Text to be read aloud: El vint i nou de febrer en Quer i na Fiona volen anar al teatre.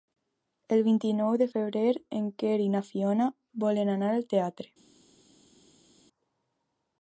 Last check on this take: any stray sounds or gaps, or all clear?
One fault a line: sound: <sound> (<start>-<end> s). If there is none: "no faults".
no faults